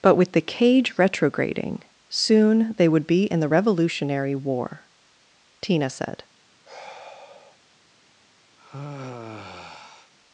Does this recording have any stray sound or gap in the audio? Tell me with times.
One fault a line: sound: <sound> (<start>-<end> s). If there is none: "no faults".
sound: sigh (6.6-7.6 s)
sound: sigh (8.6-10.1 s)